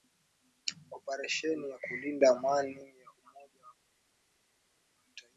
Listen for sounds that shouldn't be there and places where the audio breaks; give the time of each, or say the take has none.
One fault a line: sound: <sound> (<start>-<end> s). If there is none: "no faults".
no faults